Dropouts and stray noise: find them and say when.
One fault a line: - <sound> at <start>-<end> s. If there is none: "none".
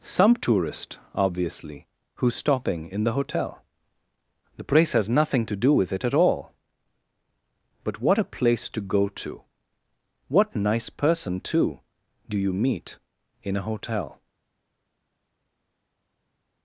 none